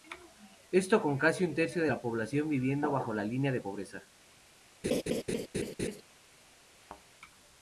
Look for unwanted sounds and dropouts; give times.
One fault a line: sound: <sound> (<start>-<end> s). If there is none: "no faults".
sound: laugh (4.8-6.0 s)
sound: thud (6.8-7.0 s)